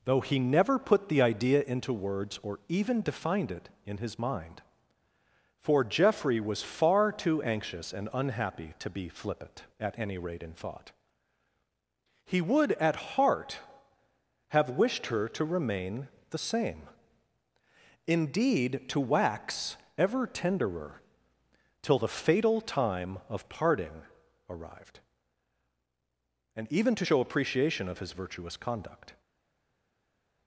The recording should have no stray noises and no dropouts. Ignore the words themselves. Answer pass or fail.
pass